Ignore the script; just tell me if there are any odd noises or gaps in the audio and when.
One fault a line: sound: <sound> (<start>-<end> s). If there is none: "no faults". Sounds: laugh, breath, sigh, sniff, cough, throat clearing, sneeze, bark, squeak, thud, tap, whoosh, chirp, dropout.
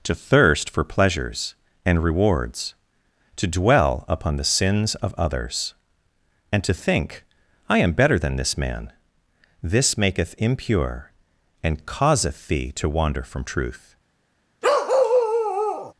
sound: bark (14.6-15.9 s)